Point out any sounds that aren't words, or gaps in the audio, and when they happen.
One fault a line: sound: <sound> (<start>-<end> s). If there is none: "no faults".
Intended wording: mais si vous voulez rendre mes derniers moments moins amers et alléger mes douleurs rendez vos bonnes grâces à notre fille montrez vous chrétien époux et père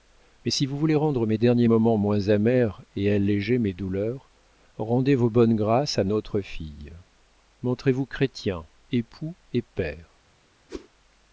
sound: whoosh (10.7-10.9 s)